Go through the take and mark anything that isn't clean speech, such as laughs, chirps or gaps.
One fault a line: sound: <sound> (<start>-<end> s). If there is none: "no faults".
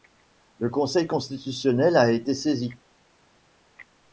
no faults